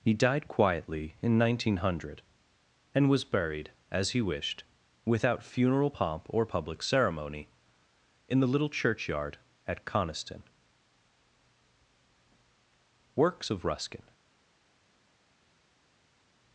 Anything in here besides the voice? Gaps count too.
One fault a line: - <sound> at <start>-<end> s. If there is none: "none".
none